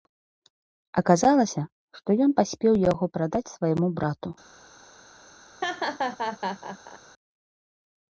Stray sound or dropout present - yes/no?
yes